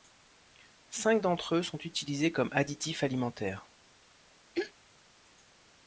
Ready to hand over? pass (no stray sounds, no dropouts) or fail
fail